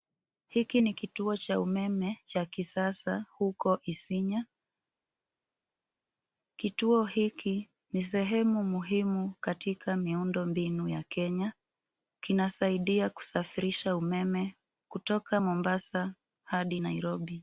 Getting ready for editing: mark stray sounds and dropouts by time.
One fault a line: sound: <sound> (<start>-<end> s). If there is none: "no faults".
no faults